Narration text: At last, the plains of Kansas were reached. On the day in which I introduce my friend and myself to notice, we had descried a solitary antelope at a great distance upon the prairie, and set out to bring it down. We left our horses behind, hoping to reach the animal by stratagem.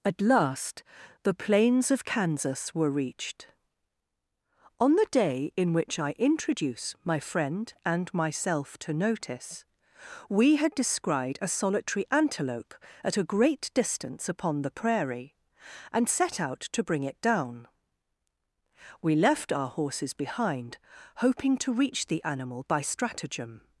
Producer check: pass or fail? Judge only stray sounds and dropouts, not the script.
pass